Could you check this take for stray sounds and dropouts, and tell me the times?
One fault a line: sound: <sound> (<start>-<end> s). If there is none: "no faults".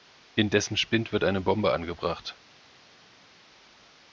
no faults